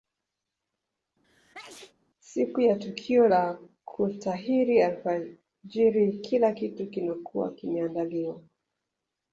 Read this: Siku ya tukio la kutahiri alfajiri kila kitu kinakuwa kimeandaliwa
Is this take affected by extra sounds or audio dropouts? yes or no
yes